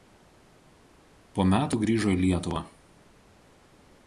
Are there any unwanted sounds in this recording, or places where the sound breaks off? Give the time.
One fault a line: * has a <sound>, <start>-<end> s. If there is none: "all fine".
all fine